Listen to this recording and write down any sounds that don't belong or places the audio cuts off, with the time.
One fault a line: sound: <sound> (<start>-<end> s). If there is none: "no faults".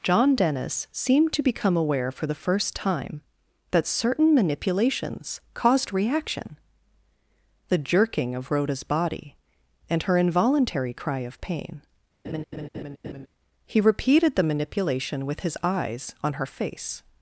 sound: laugh (12.2-13.3 s)